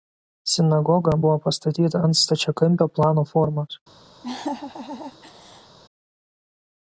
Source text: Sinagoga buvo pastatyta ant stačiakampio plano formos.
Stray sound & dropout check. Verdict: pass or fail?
fail